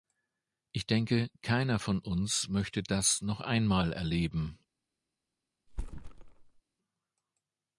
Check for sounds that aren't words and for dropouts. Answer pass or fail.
fail